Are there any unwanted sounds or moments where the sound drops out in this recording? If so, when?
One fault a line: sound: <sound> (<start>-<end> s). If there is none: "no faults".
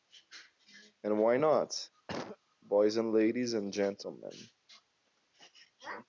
sound: cough (2.1-2.4 s)